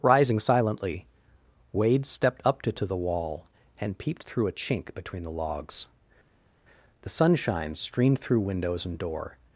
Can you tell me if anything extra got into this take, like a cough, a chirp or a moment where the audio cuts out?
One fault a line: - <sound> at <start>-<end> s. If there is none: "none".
none